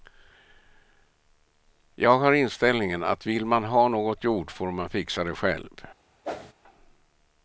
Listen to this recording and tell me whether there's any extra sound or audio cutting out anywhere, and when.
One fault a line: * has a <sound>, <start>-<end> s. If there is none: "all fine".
* has a whoosh, 6.2-6.5 s